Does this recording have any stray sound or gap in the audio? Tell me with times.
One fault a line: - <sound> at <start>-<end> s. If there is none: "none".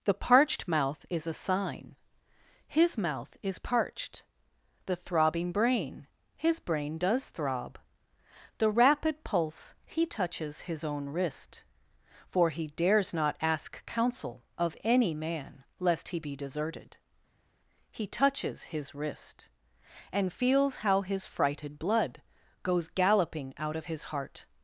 none